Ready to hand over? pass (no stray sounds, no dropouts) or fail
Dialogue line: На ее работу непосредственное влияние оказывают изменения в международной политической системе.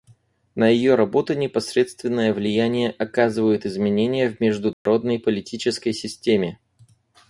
fail